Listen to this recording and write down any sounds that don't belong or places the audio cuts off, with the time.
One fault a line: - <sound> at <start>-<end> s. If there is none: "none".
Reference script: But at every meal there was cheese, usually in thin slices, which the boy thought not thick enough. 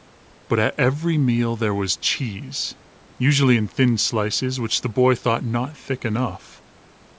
none